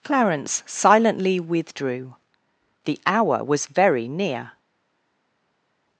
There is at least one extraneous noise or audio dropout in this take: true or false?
false